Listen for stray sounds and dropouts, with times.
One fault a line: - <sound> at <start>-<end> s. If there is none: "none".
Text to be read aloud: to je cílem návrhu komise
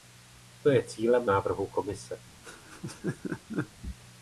- laugh at 2.4-3.7 s